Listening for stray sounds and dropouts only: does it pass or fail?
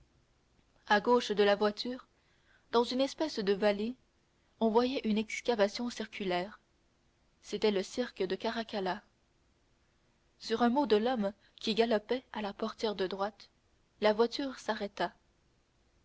pass